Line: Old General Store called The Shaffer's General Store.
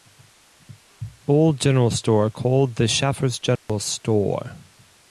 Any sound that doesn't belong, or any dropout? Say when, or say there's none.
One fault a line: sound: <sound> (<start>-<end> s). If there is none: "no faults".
sound: dropout (3.6-3.7 s)